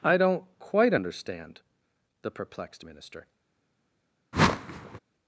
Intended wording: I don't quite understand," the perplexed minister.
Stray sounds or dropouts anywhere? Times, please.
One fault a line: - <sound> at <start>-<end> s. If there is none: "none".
- whoosh at 4.3-5.0 s